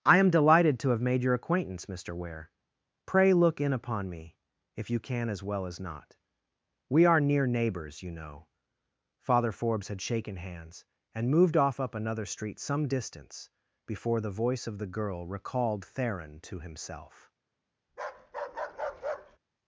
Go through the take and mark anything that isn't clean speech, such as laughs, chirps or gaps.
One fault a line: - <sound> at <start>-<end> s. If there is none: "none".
- bark at 17.9-19.4 s